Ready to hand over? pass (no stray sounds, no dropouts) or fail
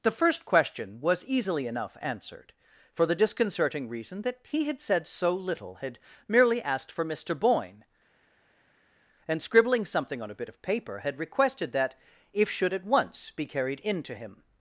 pass